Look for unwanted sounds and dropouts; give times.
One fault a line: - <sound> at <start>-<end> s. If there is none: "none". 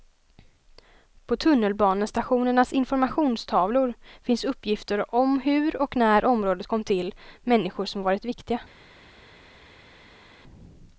none